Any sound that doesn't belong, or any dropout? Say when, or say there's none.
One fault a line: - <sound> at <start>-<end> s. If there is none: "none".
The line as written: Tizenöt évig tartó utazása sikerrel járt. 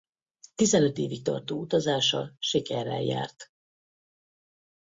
none